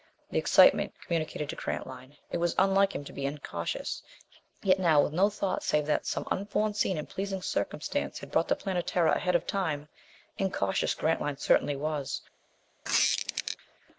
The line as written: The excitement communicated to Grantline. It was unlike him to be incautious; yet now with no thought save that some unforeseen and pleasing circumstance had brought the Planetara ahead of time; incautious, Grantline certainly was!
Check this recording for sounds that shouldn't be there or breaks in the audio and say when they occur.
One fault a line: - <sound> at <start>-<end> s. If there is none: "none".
- squeak at 12.8-13.6 s